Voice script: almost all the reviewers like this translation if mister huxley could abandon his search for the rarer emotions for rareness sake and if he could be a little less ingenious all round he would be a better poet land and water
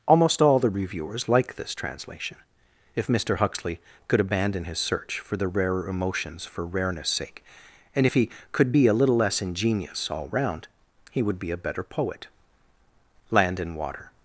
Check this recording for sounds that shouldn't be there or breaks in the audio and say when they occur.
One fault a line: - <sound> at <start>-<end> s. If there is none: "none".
none